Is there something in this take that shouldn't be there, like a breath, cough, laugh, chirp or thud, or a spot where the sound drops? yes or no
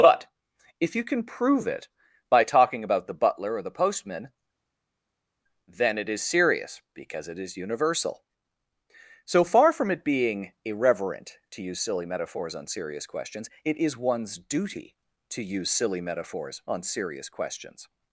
no